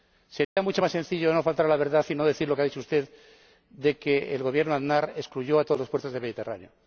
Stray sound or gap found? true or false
true